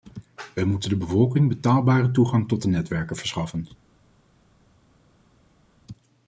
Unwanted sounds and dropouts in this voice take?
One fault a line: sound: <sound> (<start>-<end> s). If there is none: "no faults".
no faults